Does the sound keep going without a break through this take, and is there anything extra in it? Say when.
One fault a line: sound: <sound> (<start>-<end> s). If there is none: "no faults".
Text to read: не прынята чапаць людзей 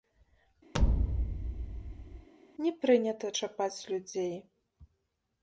sound: thud (0.7-2.3 s)